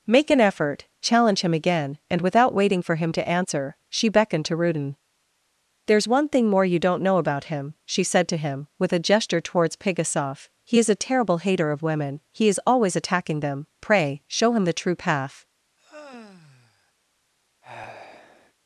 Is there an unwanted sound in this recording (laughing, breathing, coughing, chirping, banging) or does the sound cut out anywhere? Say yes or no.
yes